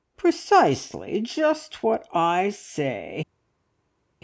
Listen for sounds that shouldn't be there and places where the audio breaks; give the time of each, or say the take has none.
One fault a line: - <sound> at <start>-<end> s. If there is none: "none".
none